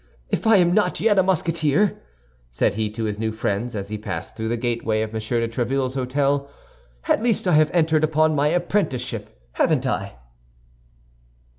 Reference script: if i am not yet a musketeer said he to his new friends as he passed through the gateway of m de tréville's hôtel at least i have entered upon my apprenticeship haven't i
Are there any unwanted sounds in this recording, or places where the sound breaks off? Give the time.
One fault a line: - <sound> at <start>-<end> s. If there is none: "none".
none